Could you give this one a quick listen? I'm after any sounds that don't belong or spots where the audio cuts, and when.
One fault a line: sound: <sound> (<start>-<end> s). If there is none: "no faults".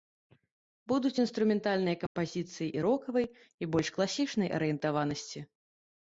sound: dropout (2.1-2.2 s)